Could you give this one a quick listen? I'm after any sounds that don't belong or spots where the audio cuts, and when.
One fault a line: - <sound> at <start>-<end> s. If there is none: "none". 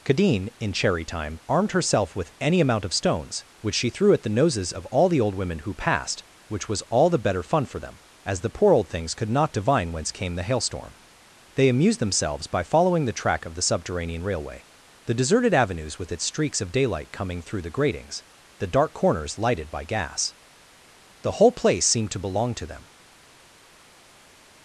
none